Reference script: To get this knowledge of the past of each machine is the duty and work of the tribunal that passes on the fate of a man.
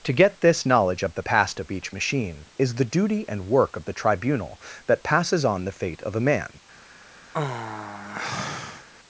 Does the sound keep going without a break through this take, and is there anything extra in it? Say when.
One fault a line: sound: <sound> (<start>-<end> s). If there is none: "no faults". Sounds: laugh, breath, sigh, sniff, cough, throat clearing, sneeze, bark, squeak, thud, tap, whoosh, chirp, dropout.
sound: sigh (7.3-8.9 s)